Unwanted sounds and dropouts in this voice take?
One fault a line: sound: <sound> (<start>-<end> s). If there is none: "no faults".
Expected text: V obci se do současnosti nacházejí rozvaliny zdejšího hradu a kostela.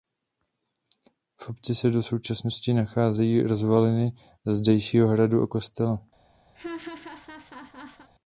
sound: laugh (6.5-8.1 s)